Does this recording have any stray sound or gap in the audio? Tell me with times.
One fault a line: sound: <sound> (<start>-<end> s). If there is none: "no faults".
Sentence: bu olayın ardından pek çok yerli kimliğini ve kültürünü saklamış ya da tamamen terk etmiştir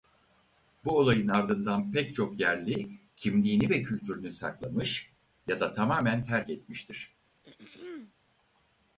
sound: throat clearing (7.4-8.1 s)